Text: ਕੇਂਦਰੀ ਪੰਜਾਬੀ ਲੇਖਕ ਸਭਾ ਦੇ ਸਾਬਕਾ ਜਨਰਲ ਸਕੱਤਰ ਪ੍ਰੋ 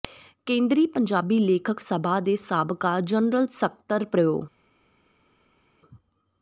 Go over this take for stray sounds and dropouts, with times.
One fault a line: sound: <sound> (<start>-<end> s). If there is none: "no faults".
no faults